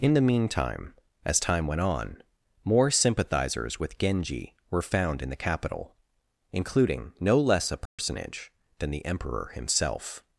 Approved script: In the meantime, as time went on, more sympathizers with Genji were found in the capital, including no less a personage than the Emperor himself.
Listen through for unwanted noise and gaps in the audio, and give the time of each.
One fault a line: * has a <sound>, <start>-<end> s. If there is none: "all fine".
* has a dropout, 7.9-8.0 s